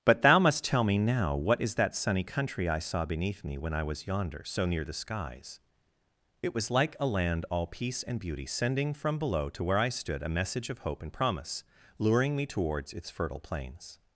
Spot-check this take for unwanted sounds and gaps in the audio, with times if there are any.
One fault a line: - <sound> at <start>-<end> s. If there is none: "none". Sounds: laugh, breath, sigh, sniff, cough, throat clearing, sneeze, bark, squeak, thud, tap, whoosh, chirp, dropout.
none